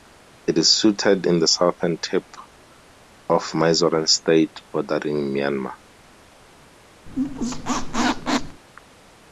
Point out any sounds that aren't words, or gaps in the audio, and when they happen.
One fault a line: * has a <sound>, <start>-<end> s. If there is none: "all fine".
* has a squeak, 7.1-8.6 s